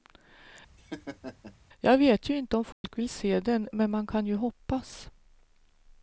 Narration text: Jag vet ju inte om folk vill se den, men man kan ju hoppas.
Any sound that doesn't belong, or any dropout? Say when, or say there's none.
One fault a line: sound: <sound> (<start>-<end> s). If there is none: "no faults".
sound: laugh (0.8-1.6 s)
sound: dropout (2.7-2.8 s)